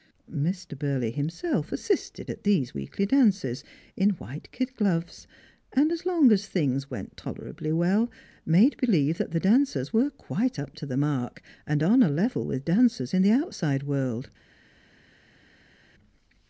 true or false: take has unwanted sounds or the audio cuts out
false